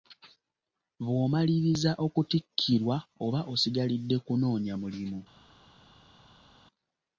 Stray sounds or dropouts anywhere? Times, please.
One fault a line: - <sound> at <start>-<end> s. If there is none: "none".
none